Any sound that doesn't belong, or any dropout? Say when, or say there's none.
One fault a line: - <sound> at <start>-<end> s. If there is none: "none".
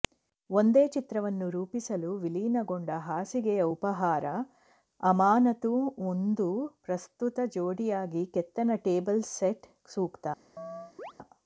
- chirp at 10.6-11.1 s